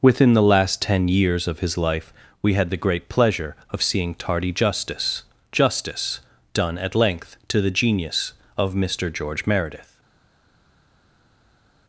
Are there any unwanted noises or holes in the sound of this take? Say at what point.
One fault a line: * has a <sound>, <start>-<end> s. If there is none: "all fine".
all fine